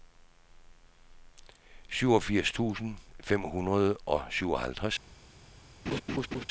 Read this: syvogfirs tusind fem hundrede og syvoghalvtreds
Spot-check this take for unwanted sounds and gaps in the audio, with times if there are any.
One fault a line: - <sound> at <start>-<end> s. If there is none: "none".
- laugh at 5.9-6.5 s